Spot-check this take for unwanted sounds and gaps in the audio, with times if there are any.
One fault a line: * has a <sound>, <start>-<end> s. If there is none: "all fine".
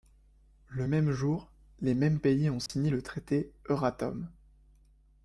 * has a dropout, 2.7-2.7 s